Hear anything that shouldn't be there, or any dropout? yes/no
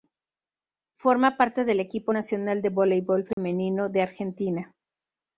yes